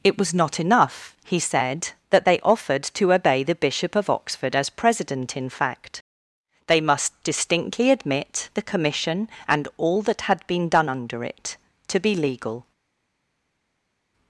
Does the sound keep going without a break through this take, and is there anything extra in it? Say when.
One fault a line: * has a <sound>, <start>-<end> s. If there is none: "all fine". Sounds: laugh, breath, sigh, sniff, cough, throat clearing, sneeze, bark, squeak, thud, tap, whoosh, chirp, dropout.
all fine